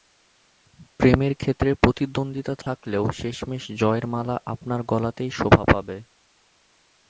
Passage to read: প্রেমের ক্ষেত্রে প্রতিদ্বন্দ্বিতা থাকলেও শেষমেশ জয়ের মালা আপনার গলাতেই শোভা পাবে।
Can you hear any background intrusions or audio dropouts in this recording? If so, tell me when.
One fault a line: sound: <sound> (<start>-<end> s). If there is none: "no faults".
sound: dropout (2.6-2.7 s)